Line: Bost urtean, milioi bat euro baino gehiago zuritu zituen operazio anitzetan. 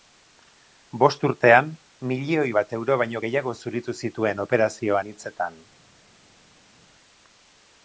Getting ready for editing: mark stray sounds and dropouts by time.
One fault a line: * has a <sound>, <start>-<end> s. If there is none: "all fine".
all fine